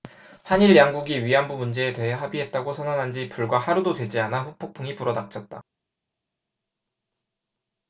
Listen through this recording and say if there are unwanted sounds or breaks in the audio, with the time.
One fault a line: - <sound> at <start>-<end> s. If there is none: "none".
none